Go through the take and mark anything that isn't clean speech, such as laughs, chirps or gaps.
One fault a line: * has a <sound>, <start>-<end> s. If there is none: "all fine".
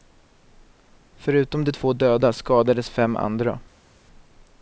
all fine